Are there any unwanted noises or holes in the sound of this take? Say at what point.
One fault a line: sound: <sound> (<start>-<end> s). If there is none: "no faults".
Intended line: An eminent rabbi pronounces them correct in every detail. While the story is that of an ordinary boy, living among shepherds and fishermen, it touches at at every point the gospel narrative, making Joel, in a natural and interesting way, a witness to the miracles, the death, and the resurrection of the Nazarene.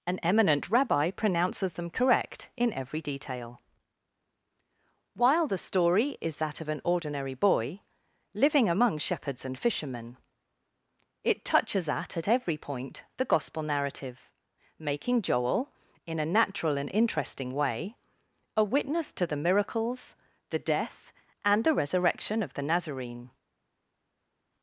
no faults